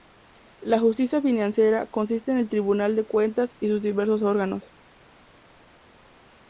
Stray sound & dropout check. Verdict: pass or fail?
pass